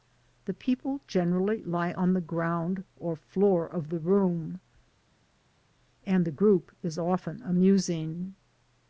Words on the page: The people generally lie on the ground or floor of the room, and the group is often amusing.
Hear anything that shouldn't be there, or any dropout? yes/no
no